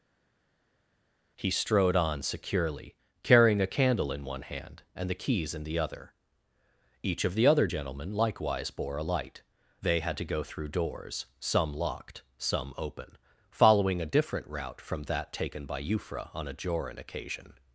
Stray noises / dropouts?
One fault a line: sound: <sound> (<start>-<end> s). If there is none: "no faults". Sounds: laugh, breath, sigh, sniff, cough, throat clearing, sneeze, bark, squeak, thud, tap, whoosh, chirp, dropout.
no faults